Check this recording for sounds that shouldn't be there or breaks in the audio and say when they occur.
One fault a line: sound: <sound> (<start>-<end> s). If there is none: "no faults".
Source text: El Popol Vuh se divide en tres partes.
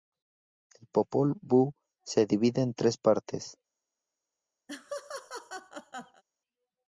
sound: laugh (4.7-6.2 s)